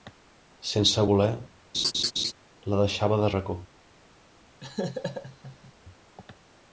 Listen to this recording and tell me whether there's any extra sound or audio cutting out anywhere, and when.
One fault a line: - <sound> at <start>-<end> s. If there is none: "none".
- laugh at 1.7-2.3 s
- laugh at 4.6-5.7 s